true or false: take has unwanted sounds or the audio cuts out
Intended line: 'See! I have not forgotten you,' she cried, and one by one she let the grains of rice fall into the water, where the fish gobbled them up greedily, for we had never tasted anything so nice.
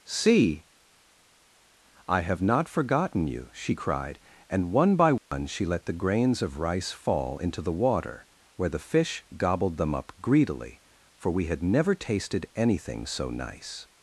true